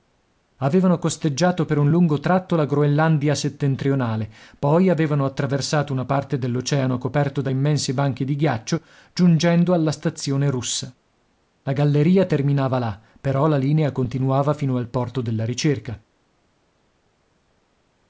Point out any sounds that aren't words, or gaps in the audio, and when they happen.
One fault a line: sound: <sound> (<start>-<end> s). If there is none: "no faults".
no faults